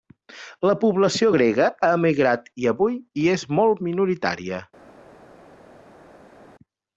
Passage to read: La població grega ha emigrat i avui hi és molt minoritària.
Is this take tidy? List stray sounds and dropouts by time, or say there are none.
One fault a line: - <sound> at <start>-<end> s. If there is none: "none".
none